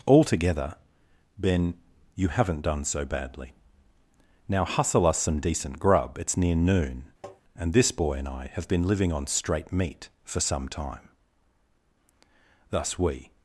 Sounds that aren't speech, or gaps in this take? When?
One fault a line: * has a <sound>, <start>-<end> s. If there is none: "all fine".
* has a tap, 7.2-7.4 s